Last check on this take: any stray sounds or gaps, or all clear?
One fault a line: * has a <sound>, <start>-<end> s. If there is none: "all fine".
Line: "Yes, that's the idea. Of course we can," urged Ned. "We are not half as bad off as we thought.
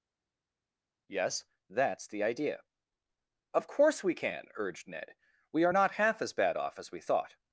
all fine